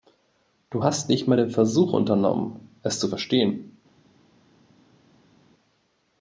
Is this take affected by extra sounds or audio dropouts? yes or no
no